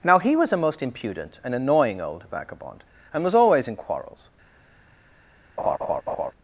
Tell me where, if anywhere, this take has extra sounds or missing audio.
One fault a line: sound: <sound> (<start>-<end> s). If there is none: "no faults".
sound: laugh (5.6-6.3 s)